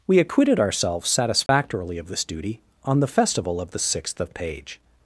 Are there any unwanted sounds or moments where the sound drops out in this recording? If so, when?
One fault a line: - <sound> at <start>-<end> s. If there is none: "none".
- dropout at 1.5-1.5 s